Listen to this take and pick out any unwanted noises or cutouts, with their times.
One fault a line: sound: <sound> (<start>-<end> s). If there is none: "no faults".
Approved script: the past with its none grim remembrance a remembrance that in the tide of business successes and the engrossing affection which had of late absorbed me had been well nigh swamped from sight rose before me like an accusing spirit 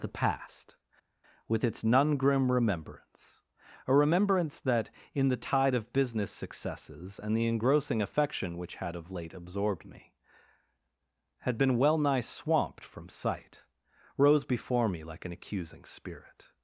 no faults